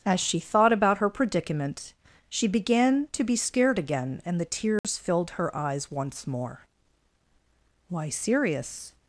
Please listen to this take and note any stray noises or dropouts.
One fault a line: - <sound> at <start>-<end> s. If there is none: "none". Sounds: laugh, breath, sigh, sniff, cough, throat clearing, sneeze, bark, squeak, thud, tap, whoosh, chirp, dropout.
- dropout at 4.8-4.8 s